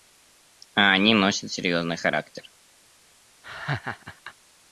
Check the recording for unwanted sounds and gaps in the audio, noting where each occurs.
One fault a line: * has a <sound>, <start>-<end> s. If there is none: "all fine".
* has a laugh, 3.4-4.3 s